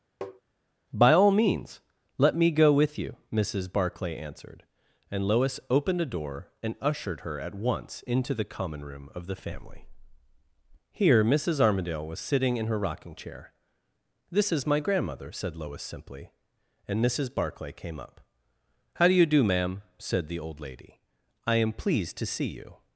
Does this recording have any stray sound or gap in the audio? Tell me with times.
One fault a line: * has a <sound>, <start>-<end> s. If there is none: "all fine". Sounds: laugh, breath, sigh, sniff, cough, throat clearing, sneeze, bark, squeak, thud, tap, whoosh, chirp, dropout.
* has a tap, 0.2-0.4 s